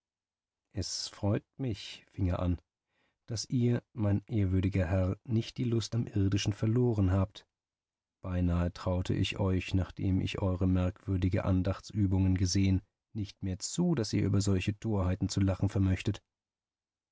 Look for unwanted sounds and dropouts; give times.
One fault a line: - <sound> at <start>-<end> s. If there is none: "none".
none